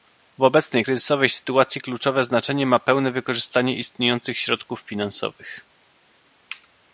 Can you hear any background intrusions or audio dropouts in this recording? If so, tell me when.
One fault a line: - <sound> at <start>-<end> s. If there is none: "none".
none